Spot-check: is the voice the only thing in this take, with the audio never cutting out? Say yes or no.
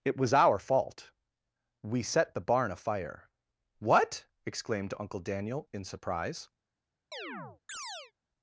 no